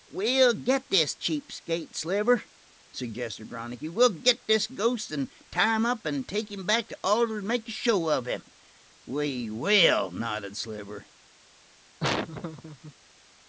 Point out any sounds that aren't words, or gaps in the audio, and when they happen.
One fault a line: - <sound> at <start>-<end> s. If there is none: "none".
- laugh at 12.0-12.9 s